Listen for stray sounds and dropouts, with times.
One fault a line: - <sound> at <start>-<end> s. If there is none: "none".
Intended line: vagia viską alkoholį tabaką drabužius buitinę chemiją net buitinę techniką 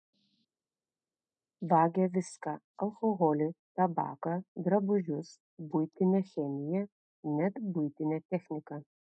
none